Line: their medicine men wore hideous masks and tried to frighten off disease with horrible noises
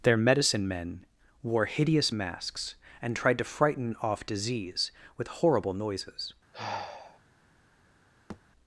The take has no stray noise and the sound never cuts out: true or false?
false